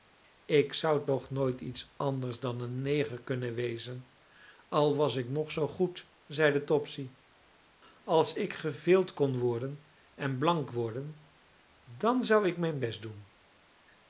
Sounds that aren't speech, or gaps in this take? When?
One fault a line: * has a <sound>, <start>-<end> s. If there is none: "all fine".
all fine